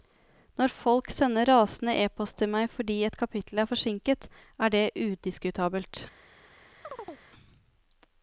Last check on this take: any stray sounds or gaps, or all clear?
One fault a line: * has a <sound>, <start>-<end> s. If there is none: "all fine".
* has a chirp, 6.8-7.2 s